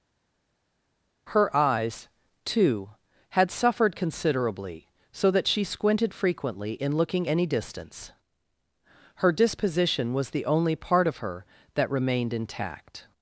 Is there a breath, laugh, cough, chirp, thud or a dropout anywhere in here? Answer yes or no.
no